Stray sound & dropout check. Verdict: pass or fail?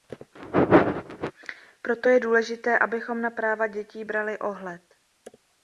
pass